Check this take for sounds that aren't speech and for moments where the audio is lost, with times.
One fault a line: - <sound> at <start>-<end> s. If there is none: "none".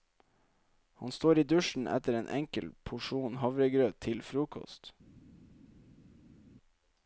none